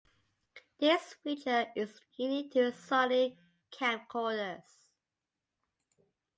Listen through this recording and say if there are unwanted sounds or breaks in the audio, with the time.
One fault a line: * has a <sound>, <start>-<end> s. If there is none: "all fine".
all fine